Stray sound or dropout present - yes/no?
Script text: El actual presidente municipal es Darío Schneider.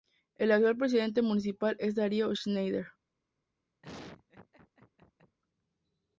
yes